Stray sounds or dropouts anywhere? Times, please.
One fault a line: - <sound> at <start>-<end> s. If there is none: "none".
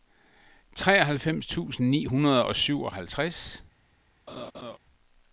- laugh at 4.3-4.8 s